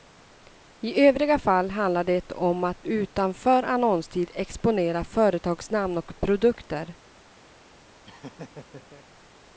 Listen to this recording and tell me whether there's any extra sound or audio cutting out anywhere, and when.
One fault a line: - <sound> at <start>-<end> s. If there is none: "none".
- laugh at 8.0-9.1 s